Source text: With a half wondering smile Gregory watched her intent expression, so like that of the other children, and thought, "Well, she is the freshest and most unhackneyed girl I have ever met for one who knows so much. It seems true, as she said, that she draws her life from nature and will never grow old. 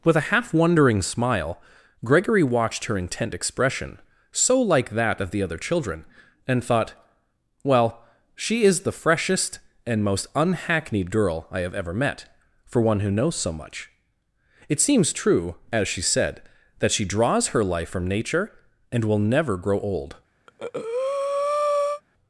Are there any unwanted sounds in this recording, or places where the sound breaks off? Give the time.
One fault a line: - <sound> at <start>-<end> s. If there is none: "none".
- breath at 20.5-22.0 s